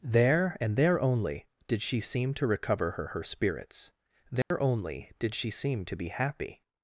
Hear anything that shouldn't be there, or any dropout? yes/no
yes